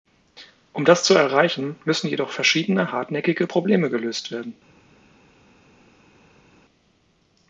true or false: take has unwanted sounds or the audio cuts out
false